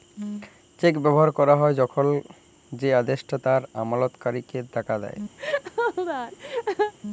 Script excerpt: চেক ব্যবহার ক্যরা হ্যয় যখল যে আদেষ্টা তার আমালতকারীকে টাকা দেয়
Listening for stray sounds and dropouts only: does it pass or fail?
fail